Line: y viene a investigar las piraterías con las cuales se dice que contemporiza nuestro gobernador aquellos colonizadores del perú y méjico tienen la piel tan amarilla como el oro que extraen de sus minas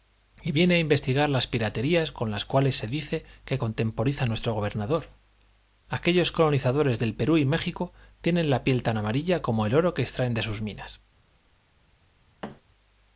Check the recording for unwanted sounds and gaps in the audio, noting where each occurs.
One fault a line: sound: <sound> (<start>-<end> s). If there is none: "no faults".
sound: thud (12.4-12.6 s)